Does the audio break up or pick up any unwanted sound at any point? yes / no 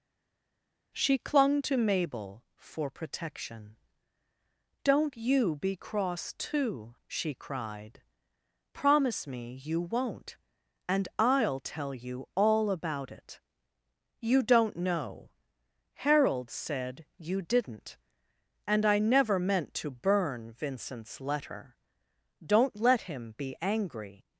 no